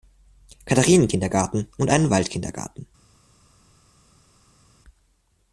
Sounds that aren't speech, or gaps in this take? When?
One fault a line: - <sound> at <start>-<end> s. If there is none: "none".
none